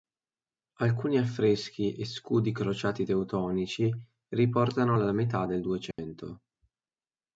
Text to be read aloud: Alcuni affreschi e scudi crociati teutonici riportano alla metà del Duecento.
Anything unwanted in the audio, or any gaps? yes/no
yes